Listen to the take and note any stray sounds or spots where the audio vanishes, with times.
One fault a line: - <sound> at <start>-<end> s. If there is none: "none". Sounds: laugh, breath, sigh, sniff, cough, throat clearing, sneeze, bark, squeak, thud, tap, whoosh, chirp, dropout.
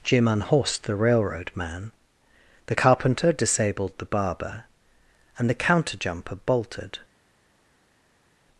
none